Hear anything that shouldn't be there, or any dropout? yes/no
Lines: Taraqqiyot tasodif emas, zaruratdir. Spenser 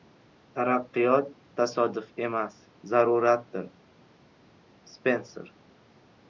no